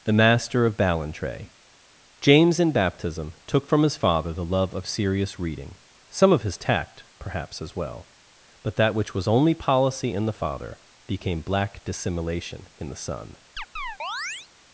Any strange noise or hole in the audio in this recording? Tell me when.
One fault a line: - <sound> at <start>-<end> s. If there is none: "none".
- chirp at 13.6-14.5 s